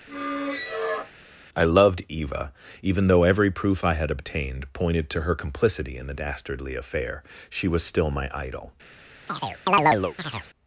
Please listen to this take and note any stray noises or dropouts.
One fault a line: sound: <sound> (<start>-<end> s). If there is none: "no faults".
sound: squeak (0.1-1.1 s)
sound: chirp (9.3-10.5 s)